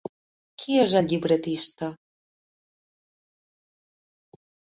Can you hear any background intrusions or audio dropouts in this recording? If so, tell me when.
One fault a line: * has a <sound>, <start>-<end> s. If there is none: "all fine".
all fine